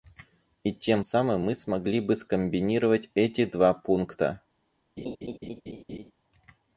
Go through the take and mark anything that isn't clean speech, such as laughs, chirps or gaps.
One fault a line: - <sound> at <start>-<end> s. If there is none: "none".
- laugh at 5.0-6.1 s